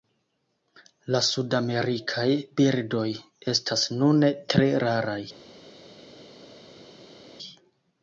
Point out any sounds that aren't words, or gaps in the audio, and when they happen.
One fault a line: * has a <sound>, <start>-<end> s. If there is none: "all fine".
all fine